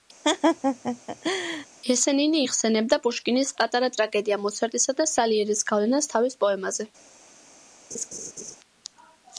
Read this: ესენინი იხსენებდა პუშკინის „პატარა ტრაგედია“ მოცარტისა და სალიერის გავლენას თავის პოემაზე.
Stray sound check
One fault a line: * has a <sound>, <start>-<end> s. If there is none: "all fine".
* has a laugh, 0.2-1.7 s
* has a laugh, 7.9-8.6 s